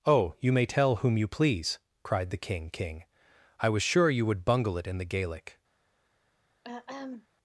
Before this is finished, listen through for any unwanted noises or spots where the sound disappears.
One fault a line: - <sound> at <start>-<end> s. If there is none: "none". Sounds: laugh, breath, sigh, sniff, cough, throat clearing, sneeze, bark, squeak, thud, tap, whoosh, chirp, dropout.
- throat clearing at 6.6-7.3 s